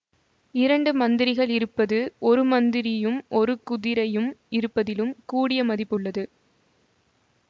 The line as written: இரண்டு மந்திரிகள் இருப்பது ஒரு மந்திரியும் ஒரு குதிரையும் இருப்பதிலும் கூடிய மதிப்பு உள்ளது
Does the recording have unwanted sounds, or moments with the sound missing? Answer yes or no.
no